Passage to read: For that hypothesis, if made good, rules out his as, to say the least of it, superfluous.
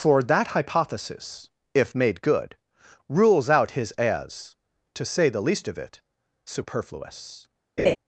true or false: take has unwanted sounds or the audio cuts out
true